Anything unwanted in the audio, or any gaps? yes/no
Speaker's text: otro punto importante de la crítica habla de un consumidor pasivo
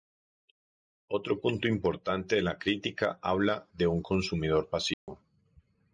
yes